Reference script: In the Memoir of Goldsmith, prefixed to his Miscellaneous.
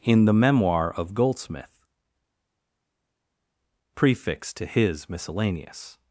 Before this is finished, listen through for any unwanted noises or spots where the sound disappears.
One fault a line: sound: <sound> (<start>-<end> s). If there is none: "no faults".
no faults